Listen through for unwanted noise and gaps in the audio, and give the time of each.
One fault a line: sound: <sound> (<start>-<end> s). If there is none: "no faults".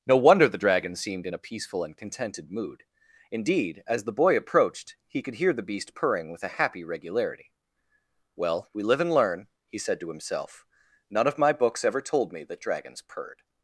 no faults